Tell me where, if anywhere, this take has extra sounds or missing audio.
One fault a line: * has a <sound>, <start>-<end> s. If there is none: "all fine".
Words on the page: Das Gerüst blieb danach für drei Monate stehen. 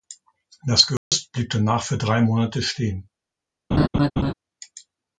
* has a dropout, 1.0-1.1 s
* has a laugh, 3.7-4.3 s